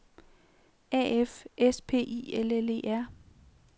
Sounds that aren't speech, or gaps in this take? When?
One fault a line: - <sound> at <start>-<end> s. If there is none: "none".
none